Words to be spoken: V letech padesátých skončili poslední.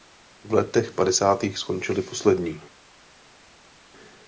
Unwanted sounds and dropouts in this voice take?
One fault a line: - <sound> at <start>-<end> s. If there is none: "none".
none